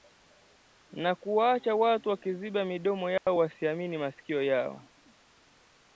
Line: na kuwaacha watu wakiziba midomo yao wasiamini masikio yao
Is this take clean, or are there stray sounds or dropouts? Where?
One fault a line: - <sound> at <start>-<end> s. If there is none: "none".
- dropout at 3.2-3.3 s